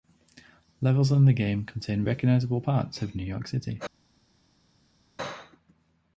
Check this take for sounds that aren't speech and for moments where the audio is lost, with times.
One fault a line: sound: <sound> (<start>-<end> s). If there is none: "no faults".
no faults